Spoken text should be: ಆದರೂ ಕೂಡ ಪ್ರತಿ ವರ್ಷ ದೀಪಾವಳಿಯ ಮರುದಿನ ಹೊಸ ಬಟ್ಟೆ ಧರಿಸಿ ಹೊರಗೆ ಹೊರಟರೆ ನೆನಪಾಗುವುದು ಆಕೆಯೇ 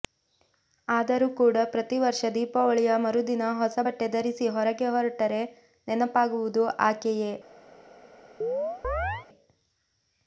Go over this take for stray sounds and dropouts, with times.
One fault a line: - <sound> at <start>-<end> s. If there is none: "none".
- chirp at 8.4-9.3 s